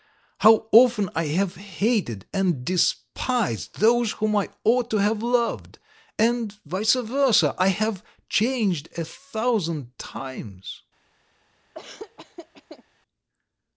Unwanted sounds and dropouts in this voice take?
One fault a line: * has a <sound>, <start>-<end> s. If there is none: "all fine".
* has a laugh, 11.7-12.8 s